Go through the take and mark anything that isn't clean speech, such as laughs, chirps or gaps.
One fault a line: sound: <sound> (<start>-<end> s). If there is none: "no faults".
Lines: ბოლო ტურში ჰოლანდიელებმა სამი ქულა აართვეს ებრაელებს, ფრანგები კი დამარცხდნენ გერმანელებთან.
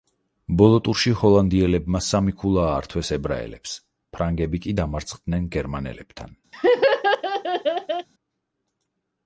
sound: laugh (6.5-8.1 s)